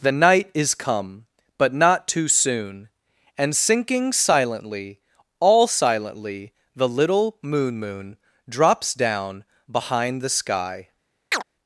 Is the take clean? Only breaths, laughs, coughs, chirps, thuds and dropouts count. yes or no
no